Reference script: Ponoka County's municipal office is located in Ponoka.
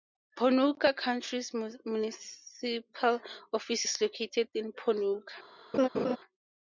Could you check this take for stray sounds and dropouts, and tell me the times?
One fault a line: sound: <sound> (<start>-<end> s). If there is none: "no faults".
sound: laugh (5.7-6.2 s)